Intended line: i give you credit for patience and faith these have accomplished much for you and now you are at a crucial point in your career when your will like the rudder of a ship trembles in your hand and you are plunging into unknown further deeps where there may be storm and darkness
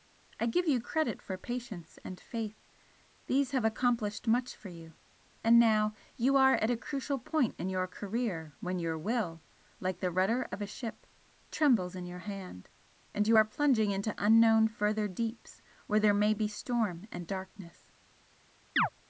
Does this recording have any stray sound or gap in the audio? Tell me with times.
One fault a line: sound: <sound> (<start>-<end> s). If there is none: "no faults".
sound: chirp (18.8-18.9 s)